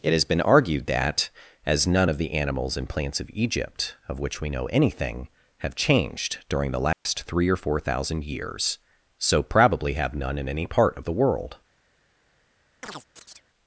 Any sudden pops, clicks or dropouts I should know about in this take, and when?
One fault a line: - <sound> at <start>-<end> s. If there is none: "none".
- dropout at 6.9-7.1 s
- chirp at 12.8-13.5 s